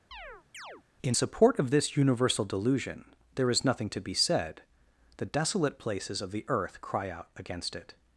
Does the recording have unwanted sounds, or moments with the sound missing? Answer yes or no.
yes